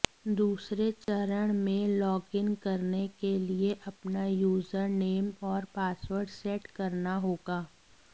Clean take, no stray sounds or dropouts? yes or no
no